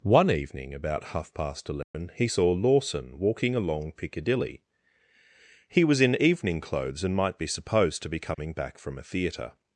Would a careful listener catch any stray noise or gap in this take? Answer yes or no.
yes